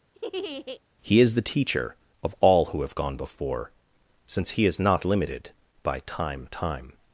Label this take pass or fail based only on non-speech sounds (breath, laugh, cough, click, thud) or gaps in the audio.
fail